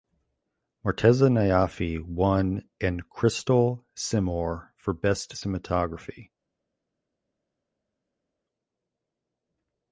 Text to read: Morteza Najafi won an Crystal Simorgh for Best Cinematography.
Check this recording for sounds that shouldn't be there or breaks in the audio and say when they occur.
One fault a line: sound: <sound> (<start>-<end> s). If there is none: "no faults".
no faults